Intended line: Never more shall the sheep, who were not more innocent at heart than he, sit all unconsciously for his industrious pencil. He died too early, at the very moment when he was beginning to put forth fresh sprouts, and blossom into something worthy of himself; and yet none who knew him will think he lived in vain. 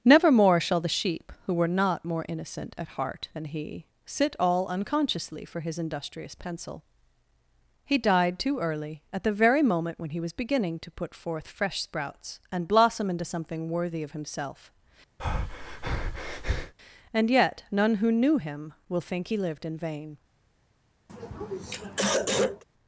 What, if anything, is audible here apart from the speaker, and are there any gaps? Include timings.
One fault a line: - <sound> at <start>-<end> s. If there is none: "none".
- breath at 15.2-16.7 s
- throat clearing at 21.1-22.6 s